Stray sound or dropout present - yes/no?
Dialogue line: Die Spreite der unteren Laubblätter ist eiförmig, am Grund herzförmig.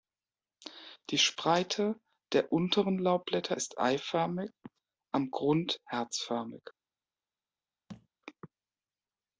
yes